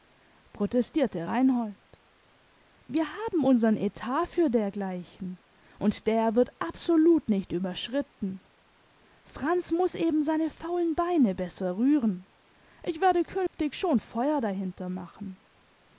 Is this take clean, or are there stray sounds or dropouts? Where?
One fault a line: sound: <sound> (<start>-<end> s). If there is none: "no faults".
sound: dropout (13.5-13.5 s)